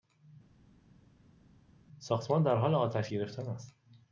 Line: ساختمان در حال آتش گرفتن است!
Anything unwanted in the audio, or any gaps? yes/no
no